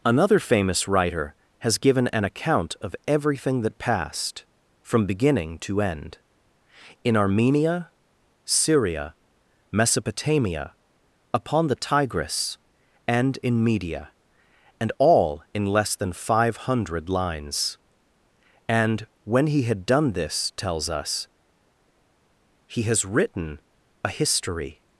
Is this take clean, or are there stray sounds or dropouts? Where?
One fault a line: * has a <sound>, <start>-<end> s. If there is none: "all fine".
all fine